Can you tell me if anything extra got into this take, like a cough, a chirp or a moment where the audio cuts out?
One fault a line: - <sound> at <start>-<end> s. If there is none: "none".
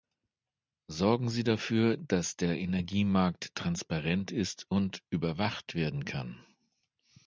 none